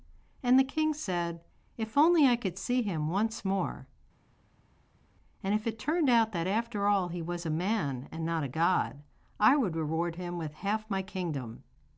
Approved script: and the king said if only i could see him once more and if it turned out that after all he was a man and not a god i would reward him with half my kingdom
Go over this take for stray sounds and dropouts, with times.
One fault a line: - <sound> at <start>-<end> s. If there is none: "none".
none